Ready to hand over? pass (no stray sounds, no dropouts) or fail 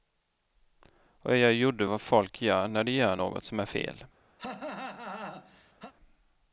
fail